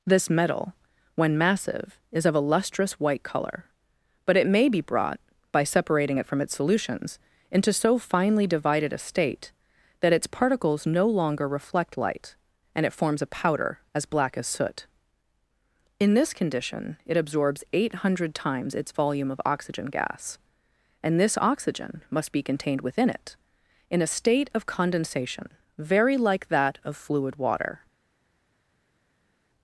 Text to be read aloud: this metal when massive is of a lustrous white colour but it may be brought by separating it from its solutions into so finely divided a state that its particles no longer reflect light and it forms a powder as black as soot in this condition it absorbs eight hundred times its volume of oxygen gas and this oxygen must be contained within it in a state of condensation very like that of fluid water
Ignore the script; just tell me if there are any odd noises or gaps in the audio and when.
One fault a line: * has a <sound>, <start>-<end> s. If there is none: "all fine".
all fine